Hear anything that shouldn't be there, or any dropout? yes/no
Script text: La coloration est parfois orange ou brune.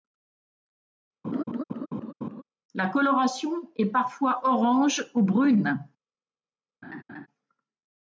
yes